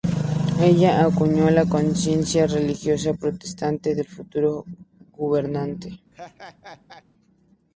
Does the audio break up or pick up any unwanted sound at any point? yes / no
yes